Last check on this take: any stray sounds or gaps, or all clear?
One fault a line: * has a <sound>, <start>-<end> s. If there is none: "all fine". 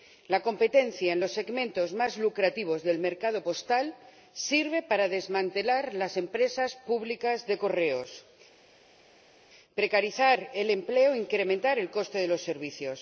all fine